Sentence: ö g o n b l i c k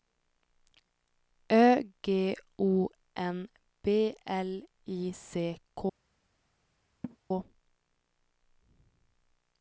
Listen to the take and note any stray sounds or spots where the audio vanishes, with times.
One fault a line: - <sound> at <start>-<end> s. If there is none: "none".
- laugh at 7.0-7.2 s